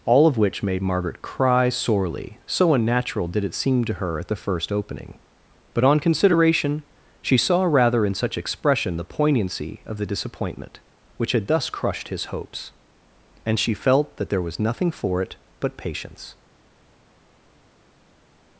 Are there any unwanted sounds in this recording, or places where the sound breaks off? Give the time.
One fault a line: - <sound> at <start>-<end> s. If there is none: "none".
none